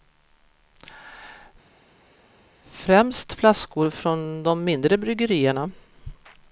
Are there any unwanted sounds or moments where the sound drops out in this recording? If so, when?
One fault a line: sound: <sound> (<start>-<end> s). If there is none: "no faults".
no faults